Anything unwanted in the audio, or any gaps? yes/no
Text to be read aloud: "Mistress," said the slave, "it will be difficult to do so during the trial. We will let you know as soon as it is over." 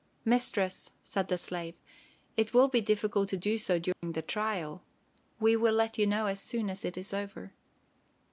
yes